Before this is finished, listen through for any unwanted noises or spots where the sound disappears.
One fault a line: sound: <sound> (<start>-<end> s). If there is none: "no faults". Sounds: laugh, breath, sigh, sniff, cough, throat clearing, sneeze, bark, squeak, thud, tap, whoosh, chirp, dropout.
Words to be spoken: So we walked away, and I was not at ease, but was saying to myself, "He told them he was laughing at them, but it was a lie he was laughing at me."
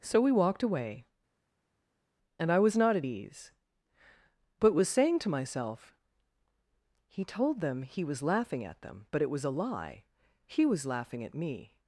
no faults